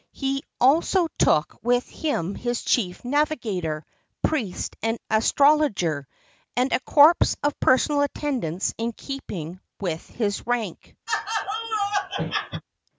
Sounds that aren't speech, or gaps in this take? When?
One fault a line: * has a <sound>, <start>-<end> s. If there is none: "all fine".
* has a laugh, 11.1-12.6 s